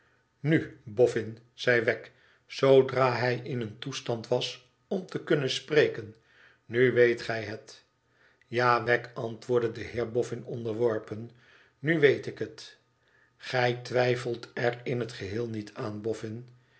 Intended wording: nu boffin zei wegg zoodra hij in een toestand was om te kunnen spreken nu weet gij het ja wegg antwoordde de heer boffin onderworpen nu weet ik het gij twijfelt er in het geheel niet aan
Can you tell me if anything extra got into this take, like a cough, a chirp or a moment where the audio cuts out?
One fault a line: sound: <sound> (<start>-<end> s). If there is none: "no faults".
no faults